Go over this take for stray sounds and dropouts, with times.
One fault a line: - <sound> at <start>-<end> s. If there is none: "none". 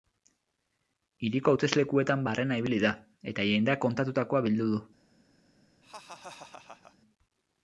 - laugh at 5.8-7.0 s